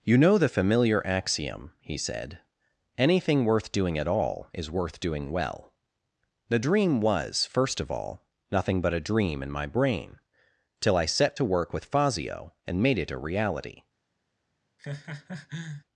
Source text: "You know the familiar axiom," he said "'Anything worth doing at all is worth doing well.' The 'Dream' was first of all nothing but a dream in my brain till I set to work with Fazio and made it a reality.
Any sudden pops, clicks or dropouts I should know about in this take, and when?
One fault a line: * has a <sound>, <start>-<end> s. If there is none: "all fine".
* has a laugh, 14.8-15.8 s